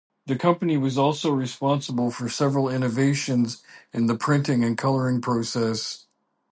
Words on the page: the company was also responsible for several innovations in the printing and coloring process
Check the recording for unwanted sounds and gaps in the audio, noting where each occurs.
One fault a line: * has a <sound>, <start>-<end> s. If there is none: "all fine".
all fine